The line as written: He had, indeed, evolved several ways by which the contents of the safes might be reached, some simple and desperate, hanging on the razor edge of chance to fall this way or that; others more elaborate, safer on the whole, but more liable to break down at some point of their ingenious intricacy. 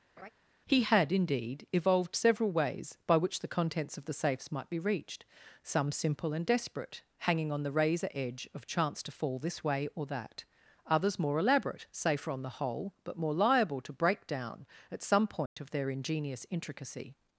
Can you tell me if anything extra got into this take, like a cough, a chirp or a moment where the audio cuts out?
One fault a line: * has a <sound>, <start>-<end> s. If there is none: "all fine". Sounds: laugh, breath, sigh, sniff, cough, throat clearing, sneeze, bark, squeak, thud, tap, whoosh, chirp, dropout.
* has a laugh, 0.2-0.3 s
* has a dropout, 15.5-15.6 s